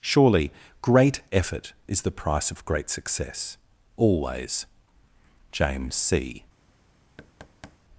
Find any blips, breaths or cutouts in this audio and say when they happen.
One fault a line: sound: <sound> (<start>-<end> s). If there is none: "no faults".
sound: thud (7.2-7.8 s)